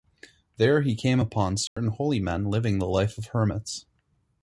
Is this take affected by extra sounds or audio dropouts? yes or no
yes